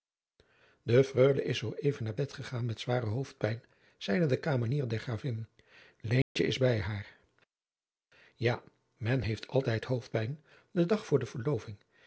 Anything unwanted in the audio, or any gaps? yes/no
yes